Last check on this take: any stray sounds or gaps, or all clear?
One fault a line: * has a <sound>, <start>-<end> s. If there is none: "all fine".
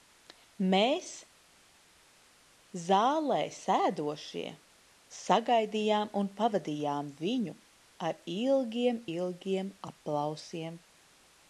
all fine